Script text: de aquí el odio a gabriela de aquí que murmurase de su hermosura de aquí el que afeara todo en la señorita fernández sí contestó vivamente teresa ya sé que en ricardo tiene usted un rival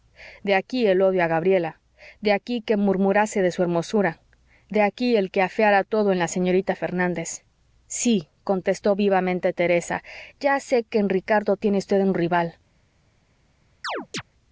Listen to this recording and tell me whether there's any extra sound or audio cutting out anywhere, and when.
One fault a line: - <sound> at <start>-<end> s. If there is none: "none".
- chirp at 13.8-14.2 s